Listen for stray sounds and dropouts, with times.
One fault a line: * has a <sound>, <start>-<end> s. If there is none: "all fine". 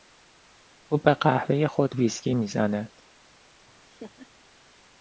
* has a laugh, 3.6-4.3 s